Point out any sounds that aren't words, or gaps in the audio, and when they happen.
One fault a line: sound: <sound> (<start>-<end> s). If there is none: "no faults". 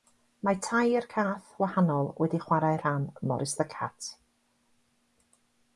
no faults